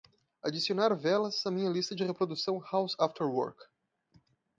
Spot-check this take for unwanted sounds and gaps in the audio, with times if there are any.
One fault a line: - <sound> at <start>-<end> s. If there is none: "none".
none